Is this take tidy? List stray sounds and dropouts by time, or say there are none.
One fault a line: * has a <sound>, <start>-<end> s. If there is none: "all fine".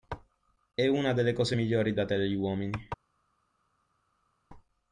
all fine